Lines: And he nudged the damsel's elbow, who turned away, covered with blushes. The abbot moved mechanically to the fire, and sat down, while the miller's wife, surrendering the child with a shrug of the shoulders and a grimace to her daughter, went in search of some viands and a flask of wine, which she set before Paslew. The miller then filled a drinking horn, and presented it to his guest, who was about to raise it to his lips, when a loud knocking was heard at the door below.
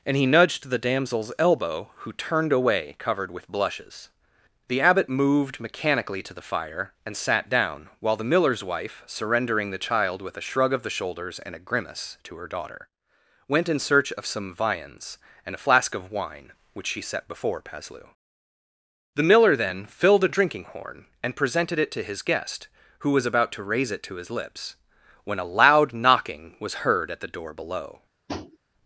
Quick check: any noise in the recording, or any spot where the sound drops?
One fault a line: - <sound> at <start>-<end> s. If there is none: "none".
- tap at 28.3-28.6 s